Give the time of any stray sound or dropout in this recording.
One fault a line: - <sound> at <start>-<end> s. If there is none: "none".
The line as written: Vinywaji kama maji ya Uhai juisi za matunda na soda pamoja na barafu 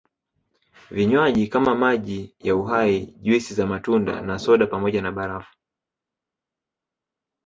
none